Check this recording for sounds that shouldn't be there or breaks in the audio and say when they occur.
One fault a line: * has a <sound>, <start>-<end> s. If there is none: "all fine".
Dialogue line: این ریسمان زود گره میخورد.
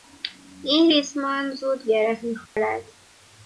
* has a dropout, 2.5-2.6 s